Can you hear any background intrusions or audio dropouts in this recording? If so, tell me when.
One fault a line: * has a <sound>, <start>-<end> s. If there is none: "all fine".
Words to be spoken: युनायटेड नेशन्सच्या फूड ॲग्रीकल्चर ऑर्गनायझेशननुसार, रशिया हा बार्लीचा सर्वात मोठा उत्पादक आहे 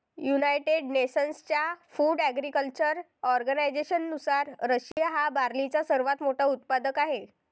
* has a dropout, 4.9-5.0 s